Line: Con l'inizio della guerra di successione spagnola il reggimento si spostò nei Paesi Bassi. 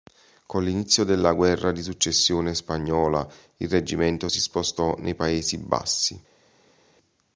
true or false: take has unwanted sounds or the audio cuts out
false